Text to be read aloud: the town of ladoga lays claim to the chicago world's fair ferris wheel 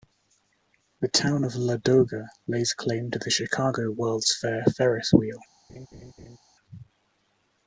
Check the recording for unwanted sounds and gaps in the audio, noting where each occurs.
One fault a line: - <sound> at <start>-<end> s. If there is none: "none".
- laugh at 5.7-6.4 s